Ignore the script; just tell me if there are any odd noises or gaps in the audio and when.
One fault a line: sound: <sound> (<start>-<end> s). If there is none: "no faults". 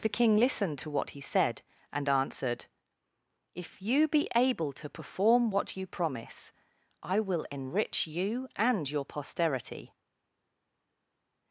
no faults